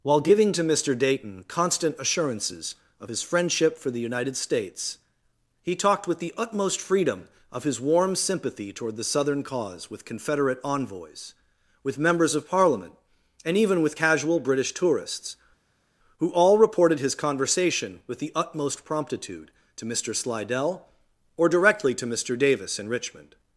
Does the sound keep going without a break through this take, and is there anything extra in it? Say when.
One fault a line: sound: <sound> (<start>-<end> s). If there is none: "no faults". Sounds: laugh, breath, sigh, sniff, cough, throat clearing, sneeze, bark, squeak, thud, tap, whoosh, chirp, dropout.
no faults